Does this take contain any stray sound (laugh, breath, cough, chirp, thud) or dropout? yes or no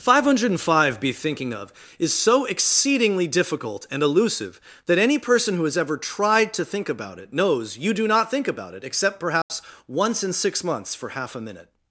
yes